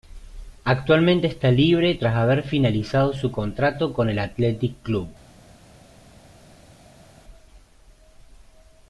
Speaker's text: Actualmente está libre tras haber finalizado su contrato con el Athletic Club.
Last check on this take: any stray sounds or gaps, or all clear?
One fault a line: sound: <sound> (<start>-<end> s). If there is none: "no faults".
no faults